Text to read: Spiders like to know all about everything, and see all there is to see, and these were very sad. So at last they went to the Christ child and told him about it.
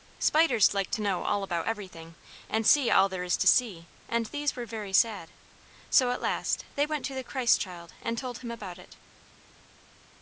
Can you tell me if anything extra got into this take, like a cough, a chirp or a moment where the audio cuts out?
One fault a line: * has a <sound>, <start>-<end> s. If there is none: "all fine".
all fine